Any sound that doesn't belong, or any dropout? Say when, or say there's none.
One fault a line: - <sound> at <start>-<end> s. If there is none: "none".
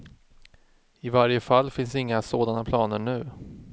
none